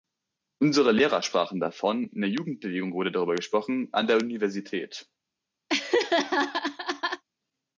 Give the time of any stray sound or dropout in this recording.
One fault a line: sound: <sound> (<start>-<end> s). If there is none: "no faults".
sound: laugh (5.7-7.2 s)